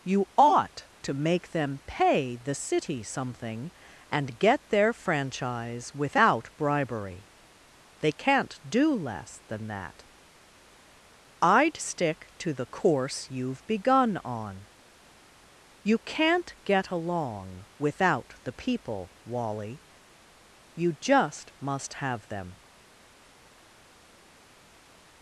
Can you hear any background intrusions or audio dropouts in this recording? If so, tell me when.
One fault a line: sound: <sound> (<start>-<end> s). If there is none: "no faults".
no faults